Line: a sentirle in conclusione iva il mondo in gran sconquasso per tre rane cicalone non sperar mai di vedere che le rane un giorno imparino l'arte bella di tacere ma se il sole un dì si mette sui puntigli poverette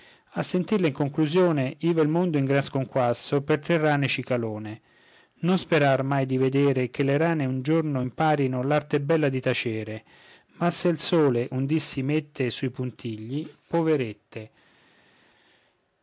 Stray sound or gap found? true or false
false